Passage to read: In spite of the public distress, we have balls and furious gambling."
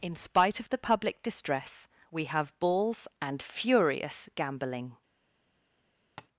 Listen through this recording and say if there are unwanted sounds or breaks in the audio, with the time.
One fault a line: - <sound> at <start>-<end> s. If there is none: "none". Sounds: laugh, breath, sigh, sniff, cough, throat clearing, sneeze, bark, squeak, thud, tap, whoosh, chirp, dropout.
- tap at 6.2-6.3 s